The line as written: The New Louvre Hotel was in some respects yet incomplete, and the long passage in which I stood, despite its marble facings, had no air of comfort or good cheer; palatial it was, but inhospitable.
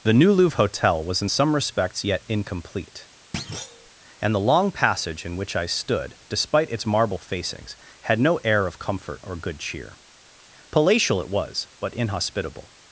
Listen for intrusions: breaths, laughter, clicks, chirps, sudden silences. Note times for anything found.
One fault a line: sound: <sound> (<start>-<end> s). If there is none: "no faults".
sound: thud (3.3-3.9 s)